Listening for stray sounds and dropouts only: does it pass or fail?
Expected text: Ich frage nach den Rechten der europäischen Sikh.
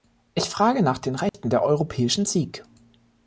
fail